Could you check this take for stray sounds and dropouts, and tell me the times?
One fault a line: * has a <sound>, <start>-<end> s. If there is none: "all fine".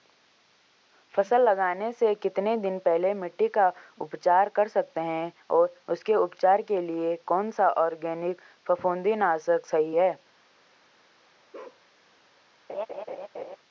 * has a bark, 11.5-11.8 s
* has a laugh, 12.7-13.6 s